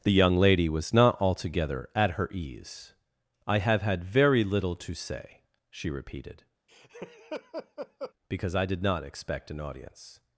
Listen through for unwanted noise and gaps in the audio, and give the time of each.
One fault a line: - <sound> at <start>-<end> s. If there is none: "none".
- laugh at 6.7-8.1 s